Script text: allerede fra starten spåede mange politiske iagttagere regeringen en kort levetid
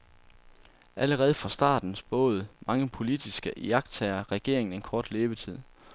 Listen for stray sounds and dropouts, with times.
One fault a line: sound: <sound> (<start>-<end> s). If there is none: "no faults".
no faults